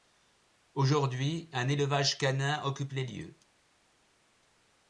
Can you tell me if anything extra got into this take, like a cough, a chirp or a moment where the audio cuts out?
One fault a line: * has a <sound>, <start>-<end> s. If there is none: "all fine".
all fine